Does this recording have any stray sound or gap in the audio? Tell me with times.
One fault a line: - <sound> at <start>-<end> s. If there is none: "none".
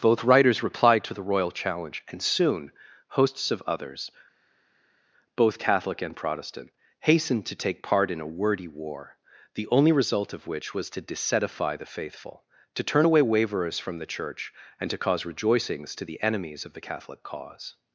none